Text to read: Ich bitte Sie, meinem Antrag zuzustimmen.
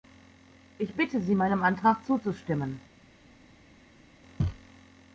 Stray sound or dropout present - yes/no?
no